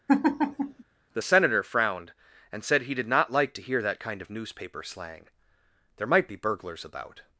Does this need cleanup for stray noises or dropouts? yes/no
yes